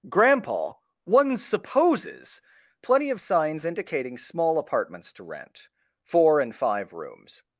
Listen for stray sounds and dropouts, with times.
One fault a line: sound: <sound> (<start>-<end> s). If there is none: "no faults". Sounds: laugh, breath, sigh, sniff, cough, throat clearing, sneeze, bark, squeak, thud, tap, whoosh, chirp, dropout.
no faults